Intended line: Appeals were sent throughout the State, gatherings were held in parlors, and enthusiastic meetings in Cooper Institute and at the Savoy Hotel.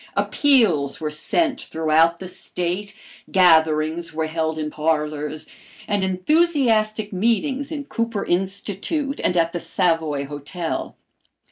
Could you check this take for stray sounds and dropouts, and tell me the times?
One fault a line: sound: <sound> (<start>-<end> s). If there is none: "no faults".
no faults